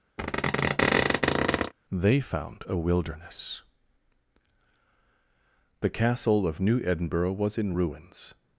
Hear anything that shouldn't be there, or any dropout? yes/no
yes